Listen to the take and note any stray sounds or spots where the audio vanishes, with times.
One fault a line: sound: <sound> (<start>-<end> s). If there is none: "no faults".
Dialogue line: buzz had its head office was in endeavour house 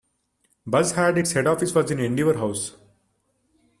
no faults